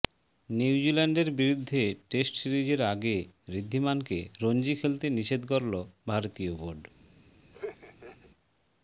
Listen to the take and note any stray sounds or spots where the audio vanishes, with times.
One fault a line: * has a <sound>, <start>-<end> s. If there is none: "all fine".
* has a laugh, 7.5-8.3 s